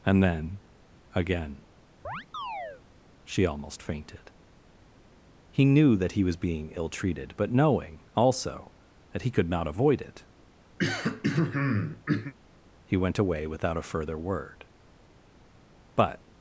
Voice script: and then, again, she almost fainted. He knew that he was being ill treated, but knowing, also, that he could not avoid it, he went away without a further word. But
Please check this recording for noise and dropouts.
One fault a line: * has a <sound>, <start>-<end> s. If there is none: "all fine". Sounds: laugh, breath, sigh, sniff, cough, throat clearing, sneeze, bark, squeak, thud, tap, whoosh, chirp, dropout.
* has a chirp, 2.0-2.8 s
* has a throat clearing, 10.8-12.3 s